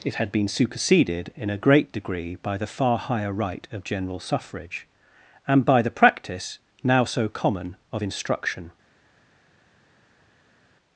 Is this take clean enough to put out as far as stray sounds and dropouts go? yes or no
yes